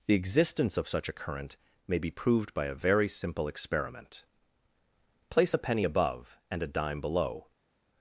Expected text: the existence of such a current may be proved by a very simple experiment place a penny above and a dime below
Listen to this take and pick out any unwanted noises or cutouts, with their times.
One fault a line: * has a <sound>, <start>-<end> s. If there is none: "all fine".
all fine